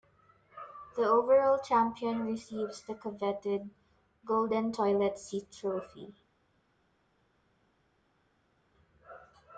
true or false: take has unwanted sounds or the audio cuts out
false